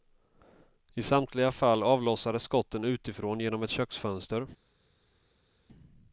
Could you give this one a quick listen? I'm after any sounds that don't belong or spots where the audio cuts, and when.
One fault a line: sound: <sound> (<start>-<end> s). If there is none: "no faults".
no faults